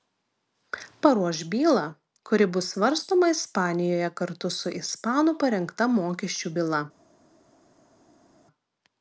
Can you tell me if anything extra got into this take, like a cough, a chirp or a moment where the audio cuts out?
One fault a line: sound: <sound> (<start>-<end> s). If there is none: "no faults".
no faults